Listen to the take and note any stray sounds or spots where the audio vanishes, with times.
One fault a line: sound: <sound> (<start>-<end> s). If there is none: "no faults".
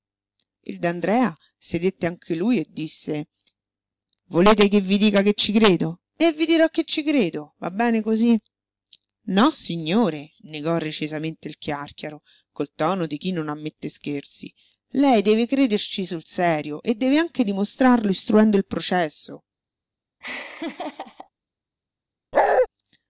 sound: laugh (20.2-21.3 s)
sound: bark (22.3-22.7 s)